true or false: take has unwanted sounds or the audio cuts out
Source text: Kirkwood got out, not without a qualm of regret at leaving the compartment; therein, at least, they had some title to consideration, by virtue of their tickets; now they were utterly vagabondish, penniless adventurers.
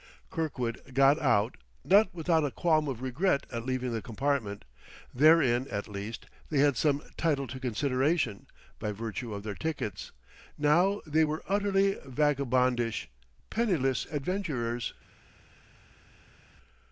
false